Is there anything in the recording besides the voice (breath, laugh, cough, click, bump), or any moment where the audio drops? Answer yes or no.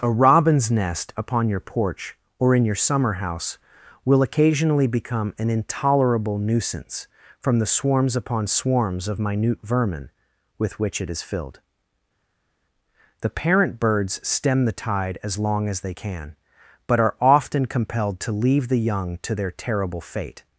no